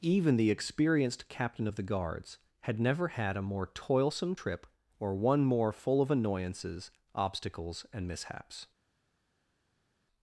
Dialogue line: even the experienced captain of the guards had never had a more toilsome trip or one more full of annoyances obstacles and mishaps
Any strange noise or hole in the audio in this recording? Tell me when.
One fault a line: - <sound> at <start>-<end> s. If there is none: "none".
none